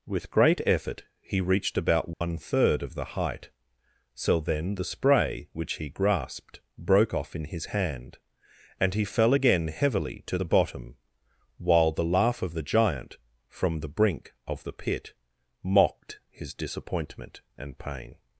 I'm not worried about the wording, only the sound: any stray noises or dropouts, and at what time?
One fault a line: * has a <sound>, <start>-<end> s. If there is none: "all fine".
* has a dropout, 2.1-2.2 s